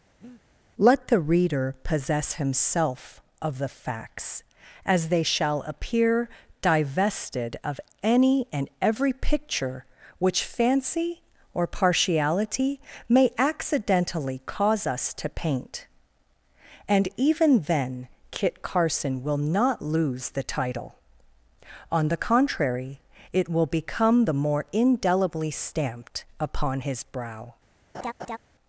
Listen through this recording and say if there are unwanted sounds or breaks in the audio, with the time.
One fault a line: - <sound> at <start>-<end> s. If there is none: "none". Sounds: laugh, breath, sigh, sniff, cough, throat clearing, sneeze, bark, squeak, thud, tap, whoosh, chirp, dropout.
- breath at 0.2-0.4 s
- laugh at 27.9-28.4 s